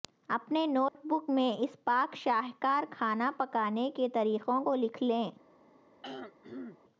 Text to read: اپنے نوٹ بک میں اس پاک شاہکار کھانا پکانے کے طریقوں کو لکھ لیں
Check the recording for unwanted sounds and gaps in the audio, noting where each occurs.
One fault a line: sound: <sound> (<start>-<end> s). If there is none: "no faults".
sound: dropout (0.9-0.9 s)
sound: throat clearing (6.0-6.8 s)